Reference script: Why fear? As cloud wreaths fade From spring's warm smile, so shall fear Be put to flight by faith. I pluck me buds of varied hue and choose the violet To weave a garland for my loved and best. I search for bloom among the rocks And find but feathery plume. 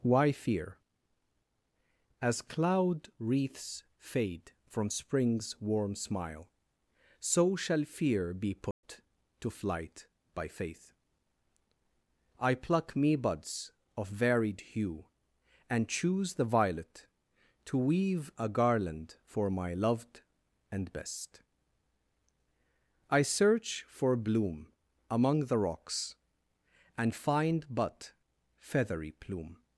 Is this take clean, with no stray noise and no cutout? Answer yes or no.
no